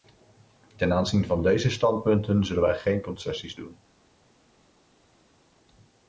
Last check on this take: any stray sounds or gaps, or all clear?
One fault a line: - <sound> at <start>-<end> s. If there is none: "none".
none